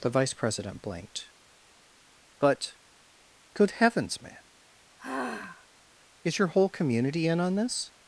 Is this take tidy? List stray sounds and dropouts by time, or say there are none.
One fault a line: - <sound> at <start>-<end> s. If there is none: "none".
- sigh at 5.0-5.7 s